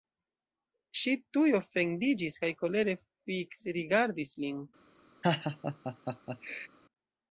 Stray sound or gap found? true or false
true